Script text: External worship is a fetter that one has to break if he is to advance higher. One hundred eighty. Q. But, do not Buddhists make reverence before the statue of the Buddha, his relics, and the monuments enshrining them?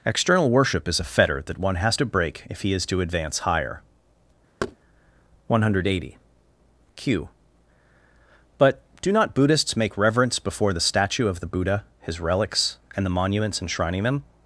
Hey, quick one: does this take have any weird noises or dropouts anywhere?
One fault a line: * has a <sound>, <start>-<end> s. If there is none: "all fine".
* has a thud, 4.6-4.8 s